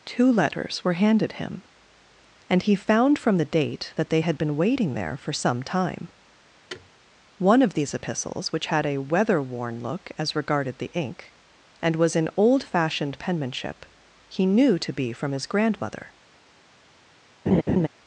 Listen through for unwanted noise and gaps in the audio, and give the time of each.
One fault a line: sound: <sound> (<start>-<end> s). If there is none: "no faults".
sound: thud (6.7-6.9 s)
sound: laugh (17.5-17.9 s)